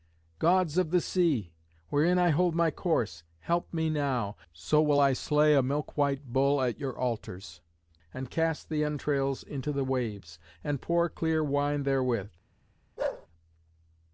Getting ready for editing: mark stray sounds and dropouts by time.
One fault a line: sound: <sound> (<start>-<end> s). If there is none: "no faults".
sound: bark (13.0-13.3 s)